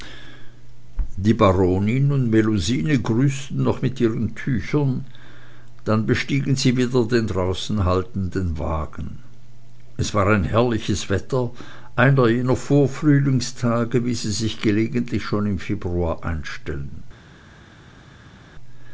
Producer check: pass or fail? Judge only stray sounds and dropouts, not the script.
pass